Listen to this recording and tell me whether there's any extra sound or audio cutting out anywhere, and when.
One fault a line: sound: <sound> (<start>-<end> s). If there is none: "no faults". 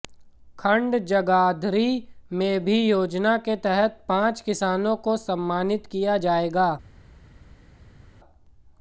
no faults